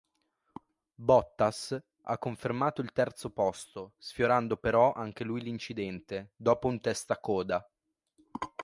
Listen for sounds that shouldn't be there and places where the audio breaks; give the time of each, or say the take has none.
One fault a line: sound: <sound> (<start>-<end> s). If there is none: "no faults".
no faults